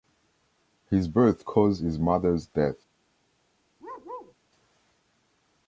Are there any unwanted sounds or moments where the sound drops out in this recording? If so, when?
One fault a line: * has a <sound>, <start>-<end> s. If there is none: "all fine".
* has a bark, 3.8-4.3 s